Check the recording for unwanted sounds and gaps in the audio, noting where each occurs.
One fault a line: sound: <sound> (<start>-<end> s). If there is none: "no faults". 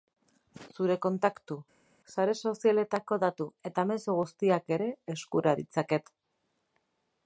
no faults